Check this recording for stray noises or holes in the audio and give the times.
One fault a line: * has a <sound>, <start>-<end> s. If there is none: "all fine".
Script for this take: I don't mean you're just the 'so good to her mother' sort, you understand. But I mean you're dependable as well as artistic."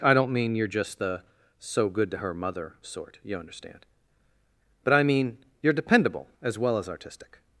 all fine